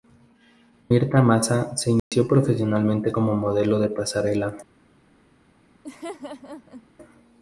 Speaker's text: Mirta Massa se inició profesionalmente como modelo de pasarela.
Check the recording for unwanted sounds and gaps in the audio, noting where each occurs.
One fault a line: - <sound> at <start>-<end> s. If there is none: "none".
- dropout at 2.0-2.1 s
- laugh at 5.8-6.9 s